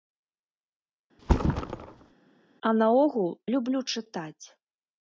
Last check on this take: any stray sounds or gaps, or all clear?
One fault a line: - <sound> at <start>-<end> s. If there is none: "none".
- thud at 1.2-2.1 s